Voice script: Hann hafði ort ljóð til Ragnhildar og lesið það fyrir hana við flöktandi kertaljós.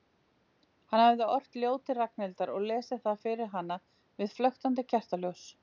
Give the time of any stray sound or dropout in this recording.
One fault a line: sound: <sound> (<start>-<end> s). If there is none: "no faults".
no faults